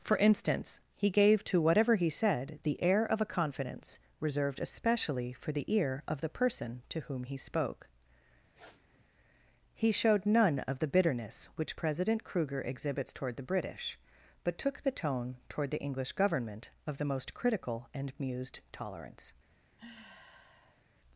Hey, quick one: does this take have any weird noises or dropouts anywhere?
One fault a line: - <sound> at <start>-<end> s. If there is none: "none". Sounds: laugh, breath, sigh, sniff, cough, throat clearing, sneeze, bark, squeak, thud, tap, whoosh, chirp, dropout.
- sniff at 8.5-9.1 s
- sigh at 19.8-20.8 s